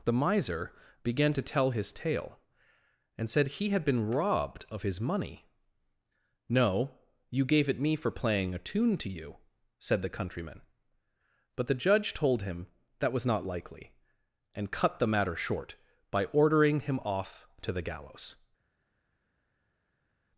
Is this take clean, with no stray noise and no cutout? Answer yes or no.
yes